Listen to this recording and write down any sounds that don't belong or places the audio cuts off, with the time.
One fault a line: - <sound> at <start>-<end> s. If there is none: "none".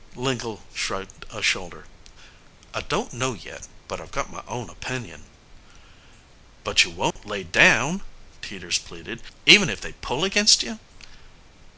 - dropout at 7.1-7.2 s